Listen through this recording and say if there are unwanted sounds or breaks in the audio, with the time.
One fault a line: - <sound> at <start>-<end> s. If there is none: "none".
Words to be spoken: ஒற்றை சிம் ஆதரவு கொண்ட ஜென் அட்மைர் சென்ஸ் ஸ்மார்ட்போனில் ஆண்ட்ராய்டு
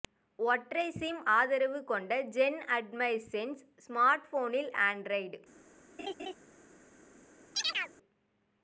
- laugh at 6.0-6.3 s
- chirp at 7.5-7.9 s